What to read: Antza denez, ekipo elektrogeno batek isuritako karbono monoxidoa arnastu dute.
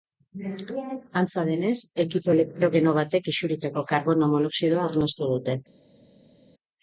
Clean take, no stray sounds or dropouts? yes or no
yes